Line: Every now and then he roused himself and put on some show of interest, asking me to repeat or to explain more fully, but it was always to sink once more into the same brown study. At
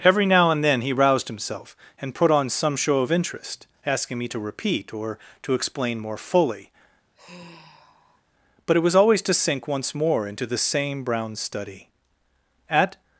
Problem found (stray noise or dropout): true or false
true